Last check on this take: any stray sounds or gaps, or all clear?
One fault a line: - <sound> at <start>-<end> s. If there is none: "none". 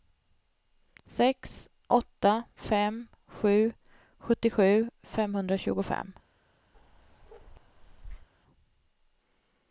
- bark at 6.7-8.3 s